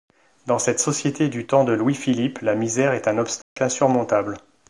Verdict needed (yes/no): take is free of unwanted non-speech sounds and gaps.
no